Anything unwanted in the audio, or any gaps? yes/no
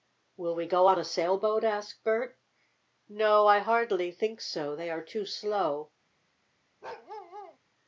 yes